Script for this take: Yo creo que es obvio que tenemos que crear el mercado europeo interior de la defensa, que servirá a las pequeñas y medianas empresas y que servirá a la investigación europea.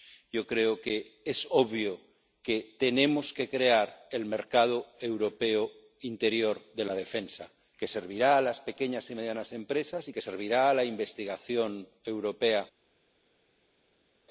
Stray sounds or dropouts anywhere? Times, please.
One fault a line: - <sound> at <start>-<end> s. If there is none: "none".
none